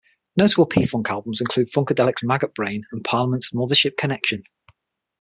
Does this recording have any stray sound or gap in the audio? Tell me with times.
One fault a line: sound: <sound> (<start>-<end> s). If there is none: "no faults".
no faults